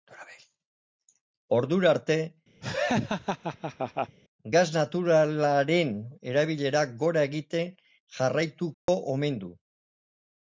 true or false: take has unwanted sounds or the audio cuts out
true